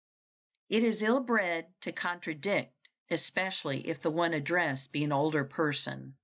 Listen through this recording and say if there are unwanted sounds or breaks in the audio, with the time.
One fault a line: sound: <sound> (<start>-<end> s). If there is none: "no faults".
no faults